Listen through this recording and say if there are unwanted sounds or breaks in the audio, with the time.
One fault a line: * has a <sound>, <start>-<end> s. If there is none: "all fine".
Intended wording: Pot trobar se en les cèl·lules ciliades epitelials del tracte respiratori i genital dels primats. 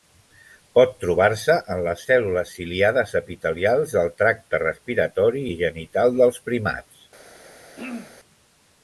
* has a throat clearing, 7.7-8.2 s